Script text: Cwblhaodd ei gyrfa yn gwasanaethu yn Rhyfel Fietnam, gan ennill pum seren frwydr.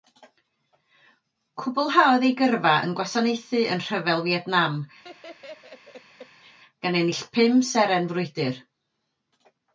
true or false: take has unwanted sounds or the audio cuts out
true